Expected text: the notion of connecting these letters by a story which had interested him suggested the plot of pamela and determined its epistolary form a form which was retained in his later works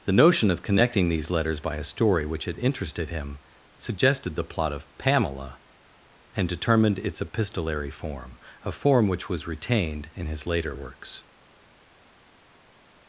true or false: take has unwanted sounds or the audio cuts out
false